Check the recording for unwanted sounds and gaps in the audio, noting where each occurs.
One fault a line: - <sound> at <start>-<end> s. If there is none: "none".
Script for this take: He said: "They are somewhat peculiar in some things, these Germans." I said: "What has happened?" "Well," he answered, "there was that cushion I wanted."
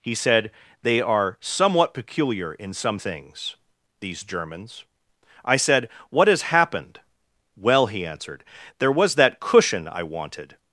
none